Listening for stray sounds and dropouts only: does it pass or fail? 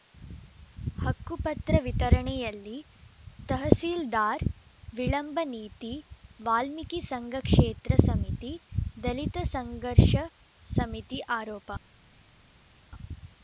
pass